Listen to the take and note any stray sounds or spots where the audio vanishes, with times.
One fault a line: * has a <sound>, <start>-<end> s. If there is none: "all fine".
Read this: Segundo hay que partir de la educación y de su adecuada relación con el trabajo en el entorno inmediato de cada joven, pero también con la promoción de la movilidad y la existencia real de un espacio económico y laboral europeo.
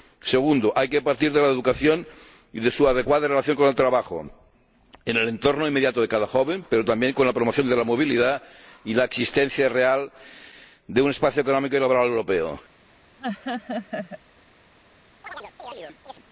* has a laugh, 13.2-14.2 s
* has a chirp, 15.2-16.3 s